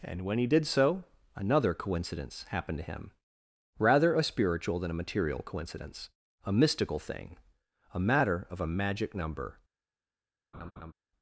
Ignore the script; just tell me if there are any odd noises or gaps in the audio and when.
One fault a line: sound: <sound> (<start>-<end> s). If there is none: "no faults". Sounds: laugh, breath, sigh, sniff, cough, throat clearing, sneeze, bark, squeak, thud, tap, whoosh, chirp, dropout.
sound: laugh (10.5-10.9 s)